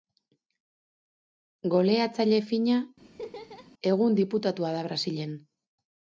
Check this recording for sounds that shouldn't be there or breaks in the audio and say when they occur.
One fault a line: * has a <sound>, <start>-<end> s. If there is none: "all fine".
* has a laugh, 3.0-3.7 s